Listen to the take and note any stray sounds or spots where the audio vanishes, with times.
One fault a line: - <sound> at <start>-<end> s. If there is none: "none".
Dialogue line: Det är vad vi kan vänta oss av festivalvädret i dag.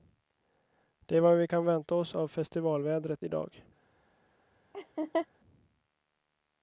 - laugh at 4.7-5.3 s